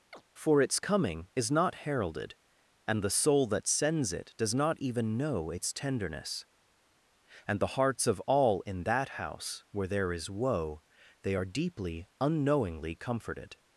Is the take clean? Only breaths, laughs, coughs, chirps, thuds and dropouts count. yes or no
no